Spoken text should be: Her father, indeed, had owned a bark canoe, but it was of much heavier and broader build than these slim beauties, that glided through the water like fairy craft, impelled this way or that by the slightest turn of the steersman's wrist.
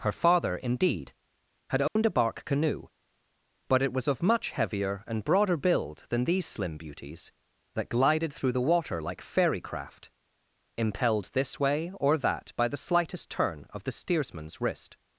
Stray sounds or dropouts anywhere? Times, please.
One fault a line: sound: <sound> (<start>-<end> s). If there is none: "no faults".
sound: dropout (1.9-2.0 s)